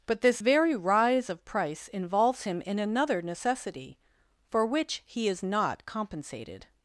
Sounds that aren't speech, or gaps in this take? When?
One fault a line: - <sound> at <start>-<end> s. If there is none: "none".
none